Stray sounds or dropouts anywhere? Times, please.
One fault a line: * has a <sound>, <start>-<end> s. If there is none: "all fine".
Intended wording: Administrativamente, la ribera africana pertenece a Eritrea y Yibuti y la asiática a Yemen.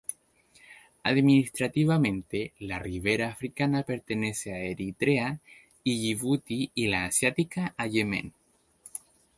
all fine